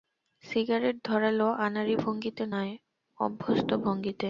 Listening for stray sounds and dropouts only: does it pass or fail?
pass